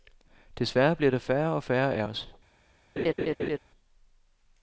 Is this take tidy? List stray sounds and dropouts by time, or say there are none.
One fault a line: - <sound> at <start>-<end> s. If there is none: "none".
- laugh at 3.0-3.6 s